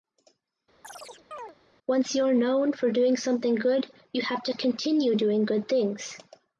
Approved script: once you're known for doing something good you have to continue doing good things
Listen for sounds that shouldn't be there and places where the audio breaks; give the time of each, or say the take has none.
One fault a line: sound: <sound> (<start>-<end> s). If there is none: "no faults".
sound: chirp (0.8-1.6 s)